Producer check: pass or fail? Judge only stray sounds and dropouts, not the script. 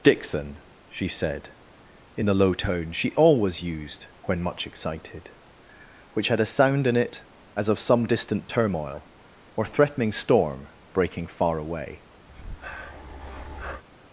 fail